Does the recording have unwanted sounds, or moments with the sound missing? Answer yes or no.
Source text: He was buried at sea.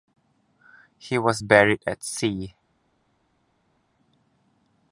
no